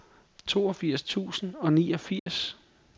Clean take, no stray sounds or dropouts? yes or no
no